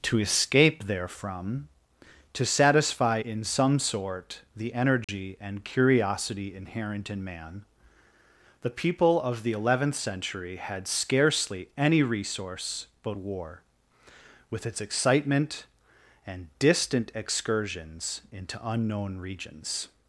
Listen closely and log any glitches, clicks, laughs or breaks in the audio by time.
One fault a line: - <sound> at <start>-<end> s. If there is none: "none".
- dropout at 5.0-5.1 s